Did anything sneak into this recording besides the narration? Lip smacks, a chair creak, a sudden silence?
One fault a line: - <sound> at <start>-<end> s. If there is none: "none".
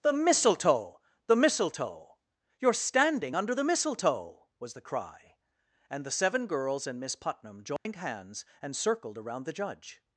- dropout at 7.8-7.9 s